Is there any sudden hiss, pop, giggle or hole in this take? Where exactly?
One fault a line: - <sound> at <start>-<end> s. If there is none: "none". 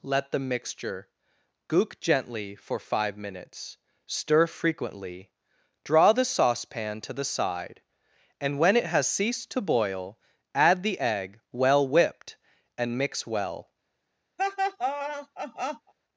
- laugh at 14.4-15.9 s